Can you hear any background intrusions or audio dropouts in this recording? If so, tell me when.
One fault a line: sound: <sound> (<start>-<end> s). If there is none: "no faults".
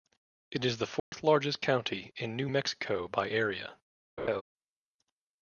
sound: dropout (1.0-1.1 s)
sound: laugh (4.2-4.4 s)